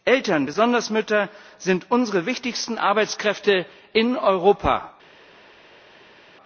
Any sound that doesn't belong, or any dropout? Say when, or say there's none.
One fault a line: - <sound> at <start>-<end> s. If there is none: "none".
none